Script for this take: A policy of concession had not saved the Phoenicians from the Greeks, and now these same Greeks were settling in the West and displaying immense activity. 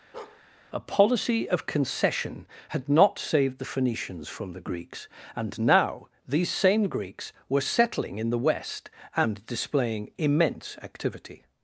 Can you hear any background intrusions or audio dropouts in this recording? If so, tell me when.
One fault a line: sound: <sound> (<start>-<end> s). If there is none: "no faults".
sound: bark (0.1-0.4 s)